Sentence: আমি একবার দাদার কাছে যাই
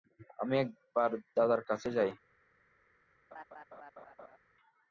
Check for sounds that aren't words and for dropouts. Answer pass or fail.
fail